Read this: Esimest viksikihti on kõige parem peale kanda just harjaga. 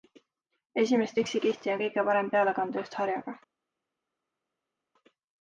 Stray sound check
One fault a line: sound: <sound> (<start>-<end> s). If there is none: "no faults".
no faults